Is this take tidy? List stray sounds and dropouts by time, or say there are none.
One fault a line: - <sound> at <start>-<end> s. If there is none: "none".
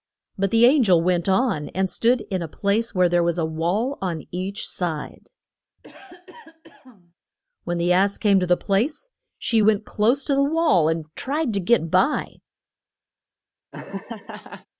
- cough at 5.8-7.1 s
- laugh at 13.7-14.7 s